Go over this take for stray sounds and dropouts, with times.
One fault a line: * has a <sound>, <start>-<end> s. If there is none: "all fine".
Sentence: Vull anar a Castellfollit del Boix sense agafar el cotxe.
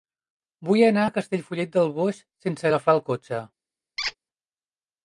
* has a squeak, 4.0-4.1 s